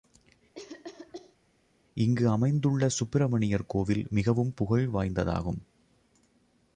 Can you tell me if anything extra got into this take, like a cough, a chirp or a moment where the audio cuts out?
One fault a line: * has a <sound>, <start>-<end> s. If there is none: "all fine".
* has a cough, 0.6-1.4 s